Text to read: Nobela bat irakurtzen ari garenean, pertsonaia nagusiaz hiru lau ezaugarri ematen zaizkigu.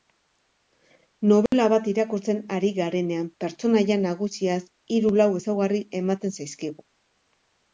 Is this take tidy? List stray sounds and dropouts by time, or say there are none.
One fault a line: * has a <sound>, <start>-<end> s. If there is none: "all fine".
* has a dropout, 1.5-1.5 s